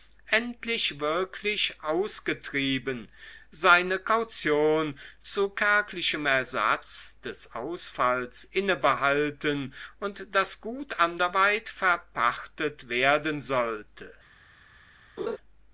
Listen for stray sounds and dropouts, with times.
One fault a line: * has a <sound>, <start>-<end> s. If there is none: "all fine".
* has a laugh, 15.2-15.4 s